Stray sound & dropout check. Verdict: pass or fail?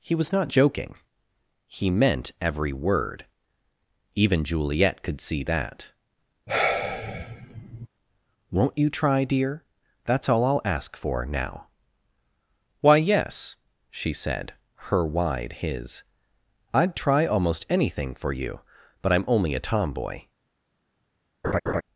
fail